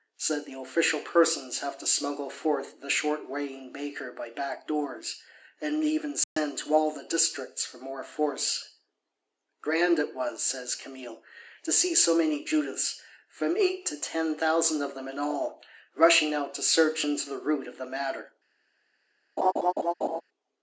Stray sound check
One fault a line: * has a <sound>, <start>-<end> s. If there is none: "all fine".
* has a dropout, 6.2-6.4 s
* has a laugh, 19.4-20.2 s